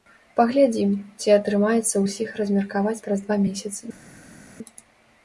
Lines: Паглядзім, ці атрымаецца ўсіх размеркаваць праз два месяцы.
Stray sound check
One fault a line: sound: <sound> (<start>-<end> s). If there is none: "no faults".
no faults